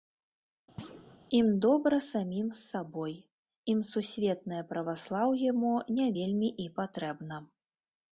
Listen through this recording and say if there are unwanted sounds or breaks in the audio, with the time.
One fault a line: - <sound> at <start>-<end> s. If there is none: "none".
- thud at 0.8-1.2 s